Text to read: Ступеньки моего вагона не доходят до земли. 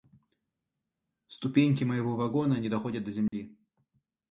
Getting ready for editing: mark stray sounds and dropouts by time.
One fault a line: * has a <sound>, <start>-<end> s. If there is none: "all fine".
* has a dropout, 3.3-3.3 s